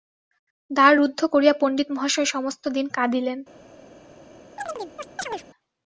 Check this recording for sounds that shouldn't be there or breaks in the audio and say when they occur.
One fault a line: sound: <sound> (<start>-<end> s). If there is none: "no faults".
sound: chirp (4.6-5.4 s)